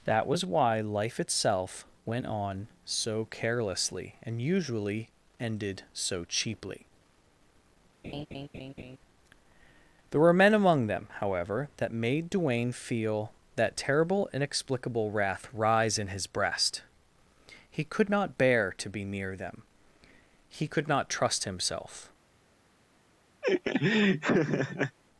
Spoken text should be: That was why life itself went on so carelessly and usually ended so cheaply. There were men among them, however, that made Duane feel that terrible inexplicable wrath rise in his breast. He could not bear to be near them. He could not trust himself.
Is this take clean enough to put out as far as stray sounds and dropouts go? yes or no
no